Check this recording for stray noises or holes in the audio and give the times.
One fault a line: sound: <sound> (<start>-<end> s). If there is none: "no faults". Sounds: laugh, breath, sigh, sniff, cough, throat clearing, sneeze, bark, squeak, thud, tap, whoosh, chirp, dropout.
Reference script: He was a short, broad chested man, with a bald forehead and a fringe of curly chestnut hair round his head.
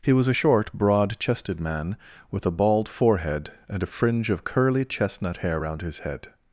no faults